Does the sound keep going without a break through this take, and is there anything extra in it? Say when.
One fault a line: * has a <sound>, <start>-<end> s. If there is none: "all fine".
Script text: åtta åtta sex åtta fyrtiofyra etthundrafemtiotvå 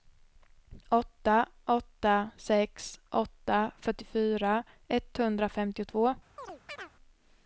* has a chirp, 6.4-6.9 s